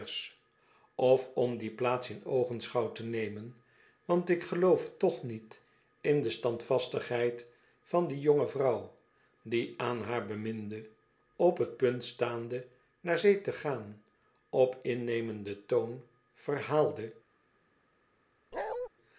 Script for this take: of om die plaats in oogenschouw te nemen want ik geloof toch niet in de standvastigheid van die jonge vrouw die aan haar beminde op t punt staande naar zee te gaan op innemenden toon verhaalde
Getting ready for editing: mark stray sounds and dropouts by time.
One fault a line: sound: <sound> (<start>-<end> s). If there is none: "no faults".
sound: bark (18.5-18.9 s)